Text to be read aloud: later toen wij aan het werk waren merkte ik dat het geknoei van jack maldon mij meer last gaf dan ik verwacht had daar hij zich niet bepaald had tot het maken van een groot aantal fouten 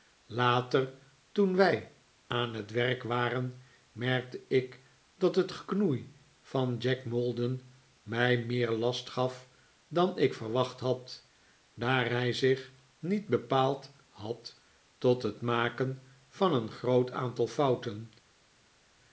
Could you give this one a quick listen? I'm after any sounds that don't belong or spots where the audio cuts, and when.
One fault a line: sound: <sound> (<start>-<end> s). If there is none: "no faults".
no faults